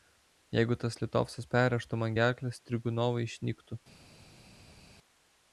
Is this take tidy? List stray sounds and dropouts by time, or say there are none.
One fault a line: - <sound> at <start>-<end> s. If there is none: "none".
none